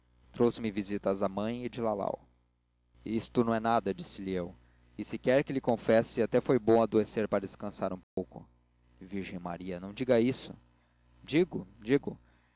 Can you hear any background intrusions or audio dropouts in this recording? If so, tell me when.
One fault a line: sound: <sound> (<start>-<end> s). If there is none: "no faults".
sound: dropout (8.0-8.2 s)